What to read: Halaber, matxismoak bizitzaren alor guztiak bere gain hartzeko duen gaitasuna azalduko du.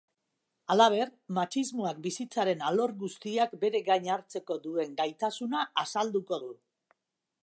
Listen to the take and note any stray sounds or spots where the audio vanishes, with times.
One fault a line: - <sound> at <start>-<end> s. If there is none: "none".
none